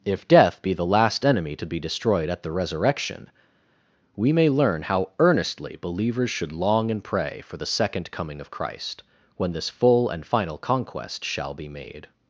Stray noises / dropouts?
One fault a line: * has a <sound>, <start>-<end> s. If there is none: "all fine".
all fine